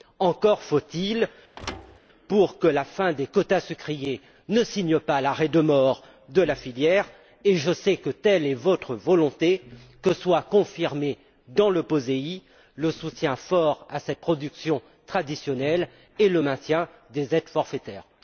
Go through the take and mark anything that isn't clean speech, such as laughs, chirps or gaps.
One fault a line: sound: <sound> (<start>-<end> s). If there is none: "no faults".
sound: thud (1.6-2.0 s)